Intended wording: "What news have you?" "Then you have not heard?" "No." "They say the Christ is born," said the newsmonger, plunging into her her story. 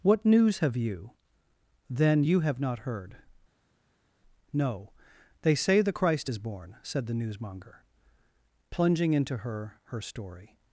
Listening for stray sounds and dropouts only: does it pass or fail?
pass